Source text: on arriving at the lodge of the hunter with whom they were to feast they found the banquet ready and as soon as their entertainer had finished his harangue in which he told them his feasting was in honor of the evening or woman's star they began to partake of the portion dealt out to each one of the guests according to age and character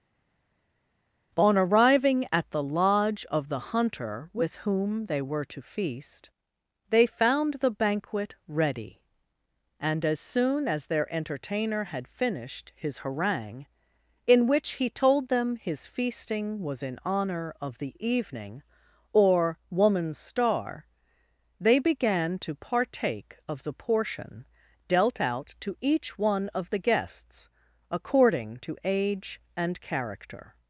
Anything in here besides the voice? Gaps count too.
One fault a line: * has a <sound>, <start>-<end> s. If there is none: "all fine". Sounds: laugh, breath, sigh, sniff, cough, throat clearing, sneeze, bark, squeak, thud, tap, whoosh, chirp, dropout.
all fine